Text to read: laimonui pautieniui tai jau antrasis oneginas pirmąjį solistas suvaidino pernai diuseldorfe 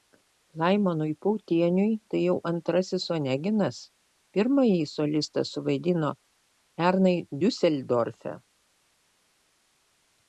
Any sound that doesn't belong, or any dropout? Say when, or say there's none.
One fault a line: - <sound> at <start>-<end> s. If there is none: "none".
none